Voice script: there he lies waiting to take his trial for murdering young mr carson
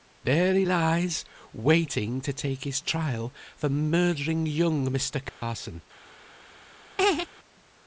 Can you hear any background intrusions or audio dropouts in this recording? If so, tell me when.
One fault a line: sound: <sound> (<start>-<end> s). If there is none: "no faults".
sound: dropout (5.3-5.4 s)
sound: laugh (7.0-7.3 s)